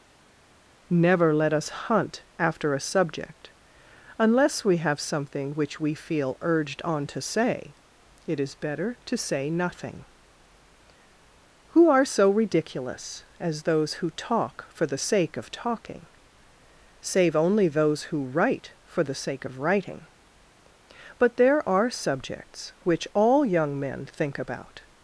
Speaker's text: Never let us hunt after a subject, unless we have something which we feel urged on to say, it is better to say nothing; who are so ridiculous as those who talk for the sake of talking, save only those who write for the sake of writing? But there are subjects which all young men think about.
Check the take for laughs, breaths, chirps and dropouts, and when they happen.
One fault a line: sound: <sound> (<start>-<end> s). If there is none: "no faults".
no faults